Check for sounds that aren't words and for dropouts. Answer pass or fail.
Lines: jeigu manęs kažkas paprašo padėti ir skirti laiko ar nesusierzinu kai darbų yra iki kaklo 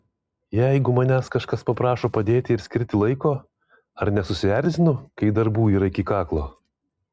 pass